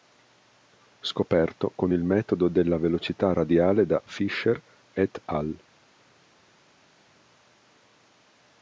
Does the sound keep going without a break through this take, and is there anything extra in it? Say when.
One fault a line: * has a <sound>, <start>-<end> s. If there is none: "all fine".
all fine